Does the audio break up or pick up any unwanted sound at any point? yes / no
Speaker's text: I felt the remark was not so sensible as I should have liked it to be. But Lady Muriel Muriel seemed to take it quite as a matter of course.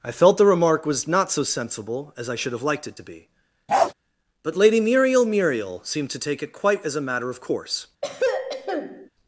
yes